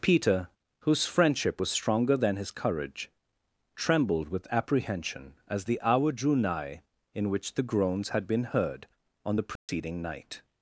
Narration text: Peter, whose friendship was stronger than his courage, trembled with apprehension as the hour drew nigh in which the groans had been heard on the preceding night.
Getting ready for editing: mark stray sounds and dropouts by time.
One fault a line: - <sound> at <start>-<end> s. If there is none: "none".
- dropout at 9.6-9.7 s